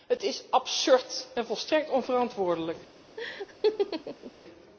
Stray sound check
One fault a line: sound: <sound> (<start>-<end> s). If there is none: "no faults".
sound: laugh (3.2-4.3 s)